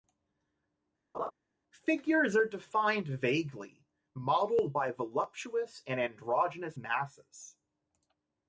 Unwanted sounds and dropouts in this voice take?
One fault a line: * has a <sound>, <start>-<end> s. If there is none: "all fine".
* has a laugh, 1.1-1.3 s